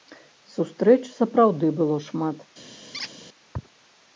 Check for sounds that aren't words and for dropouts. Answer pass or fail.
fail